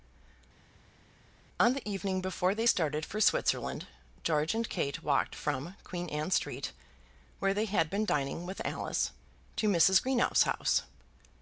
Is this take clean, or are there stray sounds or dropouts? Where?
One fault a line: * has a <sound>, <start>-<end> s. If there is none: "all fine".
all fine